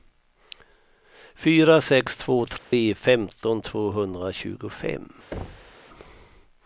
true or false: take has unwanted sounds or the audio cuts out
true